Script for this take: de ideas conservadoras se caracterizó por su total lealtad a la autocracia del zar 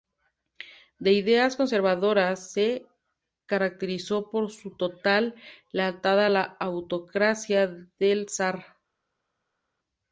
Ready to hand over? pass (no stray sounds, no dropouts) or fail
pass